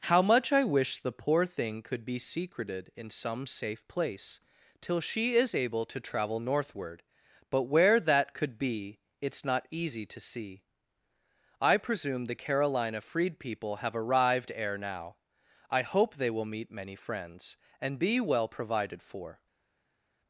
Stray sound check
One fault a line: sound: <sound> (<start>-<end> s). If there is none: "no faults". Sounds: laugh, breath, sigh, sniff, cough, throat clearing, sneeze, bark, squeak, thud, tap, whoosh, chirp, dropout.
no faults